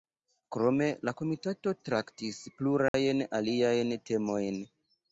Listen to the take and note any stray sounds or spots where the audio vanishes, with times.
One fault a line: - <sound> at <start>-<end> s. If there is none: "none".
- dropout at 2.9-2.9 s